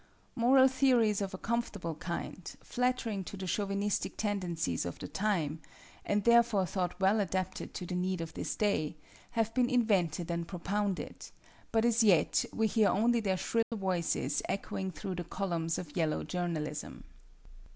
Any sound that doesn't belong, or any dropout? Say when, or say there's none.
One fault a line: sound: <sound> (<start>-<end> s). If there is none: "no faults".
sound: dropout (13.6-13.7 s)